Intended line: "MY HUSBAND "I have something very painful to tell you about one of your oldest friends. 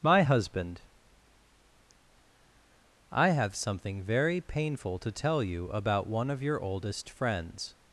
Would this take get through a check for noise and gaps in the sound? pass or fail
pass